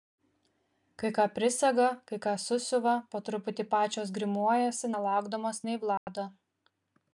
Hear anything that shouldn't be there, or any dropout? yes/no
yes